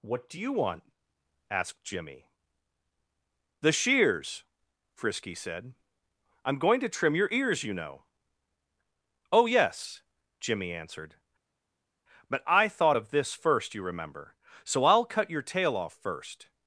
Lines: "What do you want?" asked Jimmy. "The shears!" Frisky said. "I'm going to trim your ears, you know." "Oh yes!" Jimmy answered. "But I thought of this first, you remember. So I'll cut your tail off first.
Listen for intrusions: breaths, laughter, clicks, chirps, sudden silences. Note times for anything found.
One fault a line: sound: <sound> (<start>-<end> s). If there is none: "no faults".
no faults